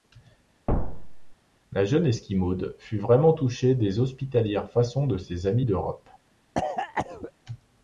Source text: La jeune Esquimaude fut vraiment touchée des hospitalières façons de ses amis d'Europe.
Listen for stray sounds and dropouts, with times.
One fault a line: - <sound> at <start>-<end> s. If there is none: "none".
- thud at 0.7-1.3 s
- cough at 6.5-7.3 s